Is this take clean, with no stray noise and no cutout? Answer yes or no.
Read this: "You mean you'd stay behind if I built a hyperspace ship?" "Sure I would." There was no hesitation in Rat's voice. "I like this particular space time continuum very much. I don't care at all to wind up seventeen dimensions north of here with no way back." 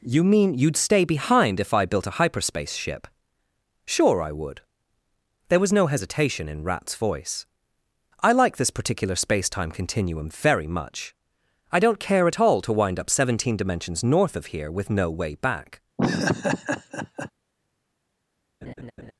no